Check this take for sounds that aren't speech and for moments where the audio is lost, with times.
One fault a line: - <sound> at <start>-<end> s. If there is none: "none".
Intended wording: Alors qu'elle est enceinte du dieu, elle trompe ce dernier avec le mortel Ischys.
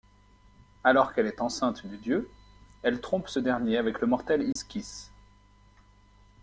- dropout at 4.5-4.6 s